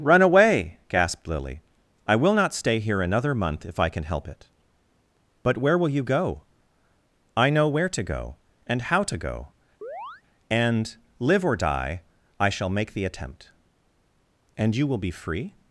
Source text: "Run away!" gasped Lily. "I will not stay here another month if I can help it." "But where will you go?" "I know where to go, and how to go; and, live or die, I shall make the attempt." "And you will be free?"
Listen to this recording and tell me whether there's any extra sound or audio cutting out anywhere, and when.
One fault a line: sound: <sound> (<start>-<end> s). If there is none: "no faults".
sound: chirp (9.8-10.2 s)